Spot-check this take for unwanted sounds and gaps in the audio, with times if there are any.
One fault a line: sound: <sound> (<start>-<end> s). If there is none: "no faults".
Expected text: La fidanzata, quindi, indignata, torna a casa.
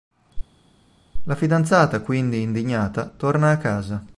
no faults